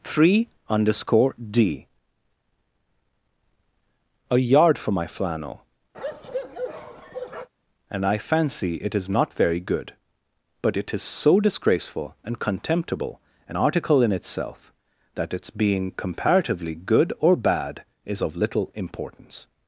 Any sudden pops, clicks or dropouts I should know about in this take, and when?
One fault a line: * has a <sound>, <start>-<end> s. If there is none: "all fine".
* has a bark, 5.9-7.5 s